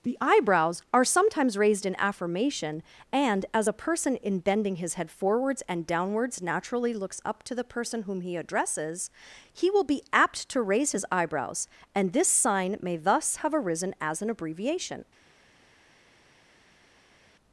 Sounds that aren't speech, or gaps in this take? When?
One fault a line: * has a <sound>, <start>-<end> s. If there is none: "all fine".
all fine